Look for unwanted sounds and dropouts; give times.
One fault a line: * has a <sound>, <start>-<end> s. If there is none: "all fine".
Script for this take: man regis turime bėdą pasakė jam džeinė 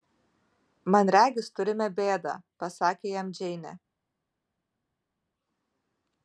all fine